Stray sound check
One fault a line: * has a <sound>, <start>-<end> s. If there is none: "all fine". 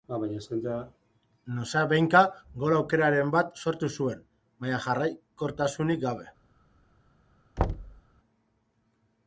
* has a thud, 7.6-8.0 s